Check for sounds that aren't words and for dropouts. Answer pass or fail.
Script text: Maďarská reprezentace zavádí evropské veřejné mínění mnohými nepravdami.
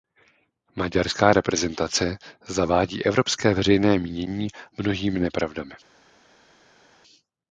pass